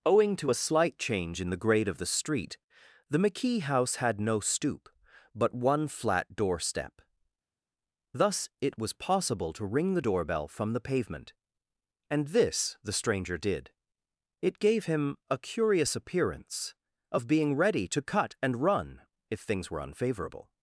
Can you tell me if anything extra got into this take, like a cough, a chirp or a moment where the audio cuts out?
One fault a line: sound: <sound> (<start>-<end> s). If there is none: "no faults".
no faults